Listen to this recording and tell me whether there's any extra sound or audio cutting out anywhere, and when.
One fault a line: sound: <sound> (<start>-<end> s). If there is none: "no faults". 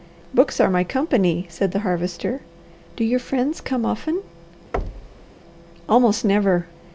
sound: thud (4.7-5.3 s)